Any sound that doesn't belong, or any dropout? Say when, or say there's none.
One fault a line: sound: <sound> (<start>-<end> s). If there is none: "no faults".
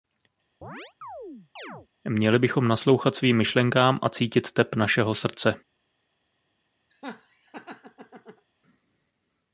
sound: chirp (0.6-1.9 s)
sound: laugh (6.9-8.5 s)